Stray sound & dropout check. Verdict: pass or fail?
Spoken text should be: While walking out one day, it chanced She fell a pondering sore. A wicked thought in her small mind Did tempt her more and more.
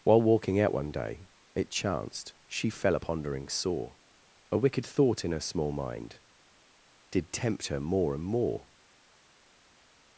pass